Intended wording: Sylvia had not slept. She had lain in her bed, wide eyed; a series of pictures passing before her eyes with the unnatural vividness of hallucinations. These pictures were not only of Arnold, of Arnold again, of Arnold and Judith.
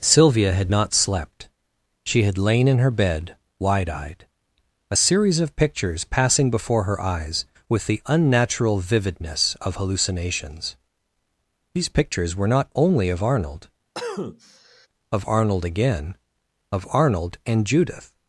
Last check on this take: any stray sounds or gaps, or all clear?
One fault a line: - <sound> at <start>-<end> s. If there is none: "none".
- cough at 13.9-14.9 s